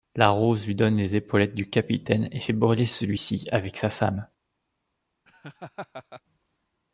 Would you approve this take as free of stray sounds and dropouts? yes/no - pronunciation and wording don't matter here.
no